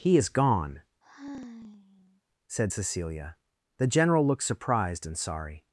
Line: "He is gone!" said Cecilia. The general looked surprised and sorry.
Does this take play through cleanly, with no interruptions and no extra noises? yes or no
no